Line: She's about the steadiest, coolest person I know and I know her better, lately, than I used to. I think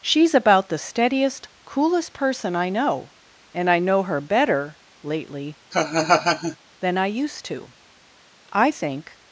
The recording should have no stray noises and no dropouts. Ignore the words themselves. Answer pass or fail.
fail